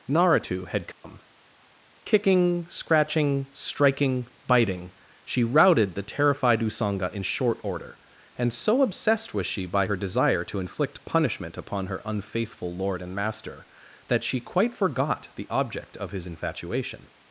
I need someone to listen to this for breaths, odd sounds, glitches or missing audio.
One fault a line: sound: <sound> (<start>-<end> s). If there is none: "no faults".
sound: dropout (0.9-1.0 s)